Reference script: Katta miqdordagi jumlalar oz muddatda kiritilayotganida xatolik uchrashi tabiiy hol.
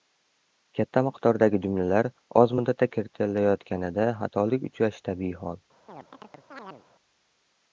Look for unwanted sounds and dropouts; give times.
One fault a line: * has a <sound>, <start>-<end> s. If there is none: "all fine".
* has a chirp, 5.9-6.9 s